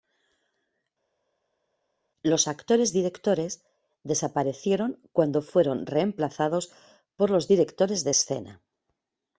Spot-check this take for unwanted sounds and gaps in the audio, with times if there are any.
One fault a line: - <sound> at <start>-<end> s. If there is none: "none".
none